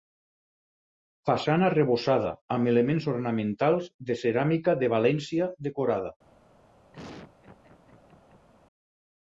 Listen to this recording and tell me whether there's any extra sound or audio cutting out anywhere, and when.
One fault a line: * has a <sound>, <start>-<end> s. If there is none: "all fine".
* has a laugh, 6.9-8.5 s